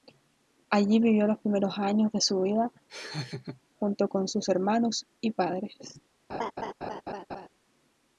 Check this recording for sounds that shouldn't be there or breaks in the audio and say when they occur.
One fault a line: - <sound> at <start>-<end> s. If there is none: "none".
- laugh at 2.9-3.6 s
- laugh at 6.3-7.5 s